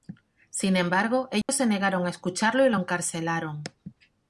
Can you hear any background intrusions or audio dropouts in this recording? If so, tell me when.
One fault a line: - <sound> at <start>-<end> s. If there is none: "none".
- dropout at 1.4-1.5 s